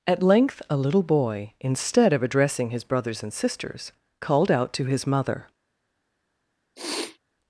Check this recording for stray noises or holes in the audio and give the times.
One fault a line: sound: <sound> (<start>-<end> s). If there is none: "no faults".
sound: sniff (6.8-7.2 s)